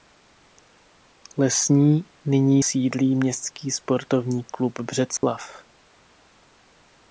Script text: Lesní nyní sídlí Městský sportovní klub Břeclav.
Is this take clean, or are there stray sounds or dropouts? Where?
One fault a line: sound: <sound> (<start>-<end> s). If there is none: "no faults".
sound: dropout (5.2-5.2 s)